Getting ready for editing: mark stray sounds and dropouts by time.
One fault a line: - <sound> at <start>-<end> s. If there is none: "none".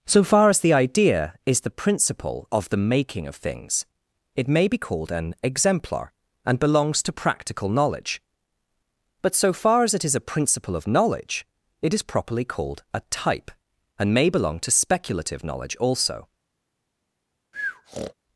- breath at 17.5-18.1 s